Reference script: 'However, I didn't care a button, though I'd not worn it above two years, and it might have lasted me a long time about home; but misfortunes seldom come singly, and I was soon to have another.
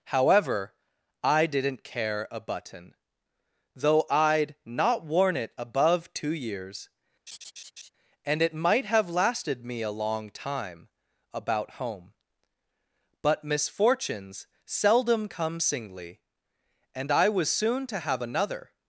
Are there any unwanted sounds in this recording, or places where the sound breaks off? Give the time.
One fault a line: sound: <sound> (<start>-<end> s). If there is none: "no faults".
sound: laugh (7.3-7.9 s)